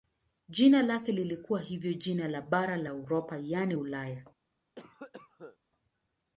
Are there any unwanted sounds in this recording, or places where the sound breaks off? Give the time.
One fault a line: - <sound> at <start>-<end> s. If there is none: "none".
- cough at 4.7-5.6 s